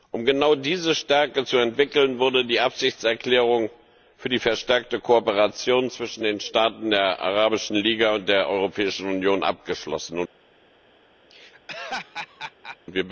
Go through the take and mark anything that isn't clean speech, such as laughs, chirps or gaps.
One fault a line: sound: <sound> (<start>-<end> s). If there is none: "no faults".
sound: laugh (11.3-12.8 s)